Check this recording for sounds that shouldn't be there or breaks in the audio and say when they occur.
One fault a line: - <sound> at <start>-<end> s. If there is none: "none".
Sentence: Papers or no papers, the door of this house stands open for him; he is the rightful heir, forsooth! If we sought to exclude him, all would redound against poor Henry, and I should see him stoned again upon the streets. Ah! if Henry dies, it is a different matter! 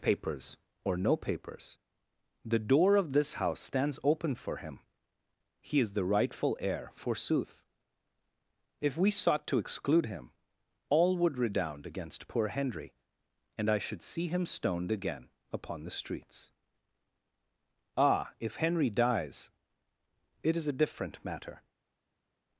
none